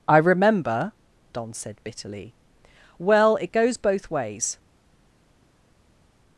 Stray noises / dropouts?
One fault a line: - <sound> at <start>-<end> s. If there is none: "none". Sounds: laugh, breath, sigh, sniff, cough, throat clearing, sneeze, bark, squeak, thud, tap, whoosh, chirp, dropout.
none